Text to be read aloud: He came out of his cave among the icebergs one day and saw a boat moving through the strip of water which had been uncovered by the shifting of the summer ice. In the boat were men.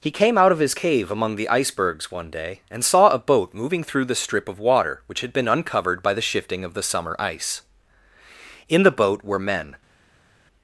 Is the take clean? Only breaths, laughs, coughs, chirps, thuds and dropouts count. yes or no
yes